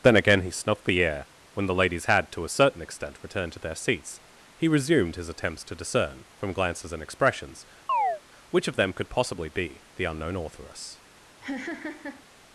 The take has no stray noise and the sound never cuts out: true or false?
false